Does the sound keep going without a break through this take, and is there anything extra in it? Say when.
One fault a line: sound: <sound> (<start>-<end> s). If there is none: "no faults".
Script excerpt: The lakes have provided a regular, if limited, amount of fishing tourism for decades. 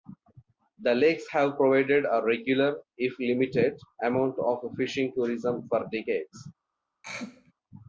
sound: throat clearing (7.0-7.5 s)